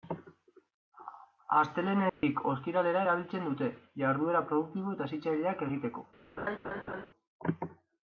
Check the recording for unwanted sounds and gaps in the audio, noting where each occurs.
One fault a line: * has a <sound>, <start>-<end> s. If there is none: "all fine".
* has a dropout, 2.1-2.2 s
* has a laugh, 6.4-7.1 s